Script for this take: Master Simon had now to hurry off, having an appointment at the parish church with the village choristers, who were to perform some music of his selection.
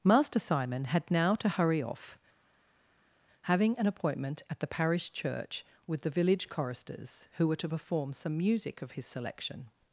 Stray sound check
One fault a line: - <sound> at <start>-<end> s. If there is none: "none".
none